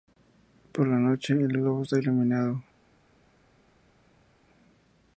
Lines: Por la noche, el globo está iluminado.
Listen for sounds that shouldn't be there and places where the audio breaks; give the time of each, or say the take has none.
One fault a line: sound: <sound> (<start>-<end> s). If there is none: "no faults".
no faults